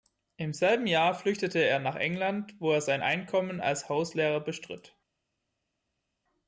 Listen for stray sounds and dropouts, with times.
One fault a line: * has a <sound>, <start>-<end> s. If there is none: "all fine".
all fine